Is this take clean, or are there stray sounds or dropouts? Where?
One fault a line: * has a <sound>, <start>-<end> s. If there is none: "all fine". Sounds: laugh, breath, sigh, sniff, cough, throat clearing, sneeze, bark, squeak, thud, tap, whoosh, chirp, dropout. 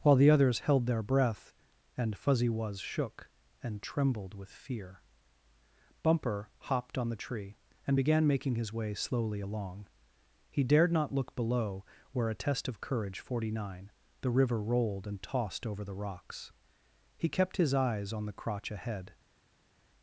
all fine